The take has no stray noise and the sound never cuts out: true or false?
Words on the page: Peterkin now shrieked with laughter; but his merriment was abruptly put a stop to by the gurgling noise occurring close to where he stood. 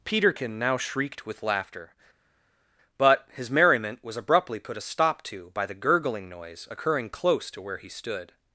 true